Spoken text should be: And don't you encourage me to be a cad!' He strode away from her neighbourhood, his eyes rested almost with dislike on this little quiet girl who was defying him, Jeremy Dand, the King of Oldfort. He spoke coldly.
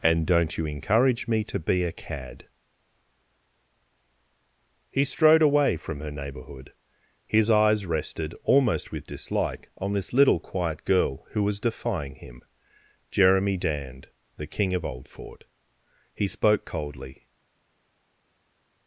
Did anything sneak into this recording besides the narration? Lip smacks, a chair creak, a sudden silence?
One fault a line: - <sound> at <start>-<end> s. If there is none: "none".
none